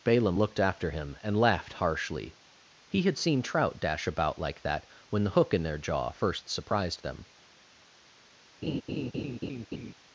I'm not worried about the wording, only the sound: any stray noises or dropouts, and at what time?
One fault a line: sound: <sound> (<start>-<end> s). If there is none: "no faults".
sound: laugh (8.6-9.9 s)